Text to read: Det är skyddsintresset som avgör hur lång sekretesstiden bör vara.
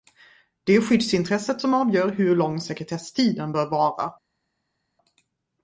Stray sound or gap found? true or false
false